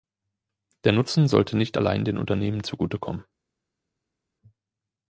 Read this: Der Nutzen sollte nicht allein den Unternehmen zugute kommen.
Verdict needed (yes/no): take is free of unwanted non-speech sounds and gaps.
yes